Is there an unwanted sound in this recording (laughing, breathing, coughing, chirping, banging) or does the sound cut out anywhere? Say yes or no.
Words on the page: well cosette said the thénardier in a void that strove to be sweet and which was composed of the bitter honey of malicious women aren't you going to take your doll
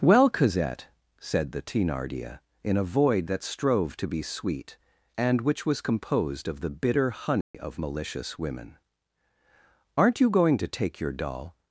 yes